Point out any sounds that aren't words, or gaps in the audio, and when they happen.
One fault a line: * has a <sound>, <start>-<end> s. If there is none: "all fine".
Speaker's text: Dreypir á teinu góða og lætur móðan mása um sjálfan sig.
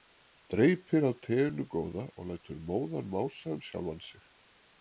all fine